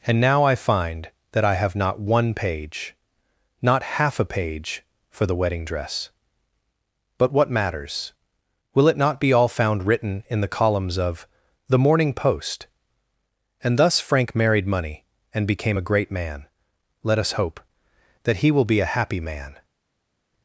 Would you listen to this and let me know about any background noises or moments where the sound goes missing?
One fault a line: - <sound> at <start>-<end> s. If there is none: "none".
none